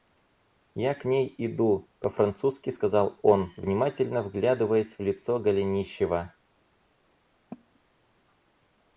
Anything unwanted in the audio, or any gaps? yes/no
yes